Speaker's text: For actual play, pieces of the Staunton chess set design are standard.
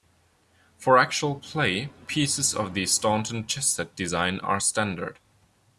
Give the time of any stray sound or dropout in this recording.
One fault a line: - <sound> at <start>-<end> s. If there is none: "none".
none